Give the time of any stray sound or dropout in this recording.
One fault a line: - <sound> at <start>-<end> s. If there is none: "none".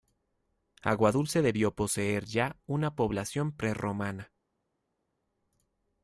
none